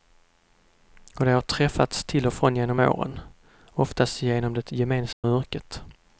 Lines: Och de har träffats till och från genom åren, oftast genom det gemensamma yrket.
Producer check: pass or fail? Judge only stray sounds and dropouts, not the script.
fail